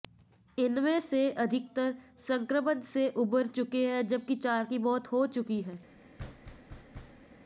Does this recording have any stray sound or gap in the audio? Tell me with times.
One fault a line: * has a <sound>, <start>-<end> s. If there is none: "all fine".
* has a thud, 6.2-7.2 s